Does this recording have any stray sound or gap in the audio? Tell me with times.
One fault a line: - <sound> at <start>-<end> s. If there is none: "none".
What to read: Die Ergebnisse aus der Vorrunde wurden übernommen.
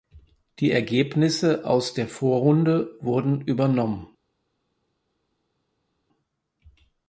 none